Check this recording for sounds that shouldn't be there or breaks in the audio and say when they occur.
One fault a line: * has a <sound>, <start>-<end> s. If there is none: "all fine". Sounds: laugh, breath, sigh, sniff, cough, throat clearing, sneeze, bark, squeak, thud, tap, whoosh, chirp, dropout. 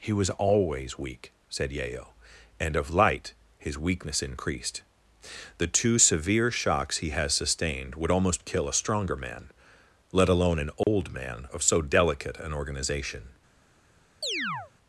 * has a dropout, 10.8-10.9 s
* has a chirp, 14.2-14.7 s